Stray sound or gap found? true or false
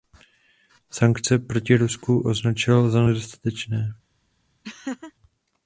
true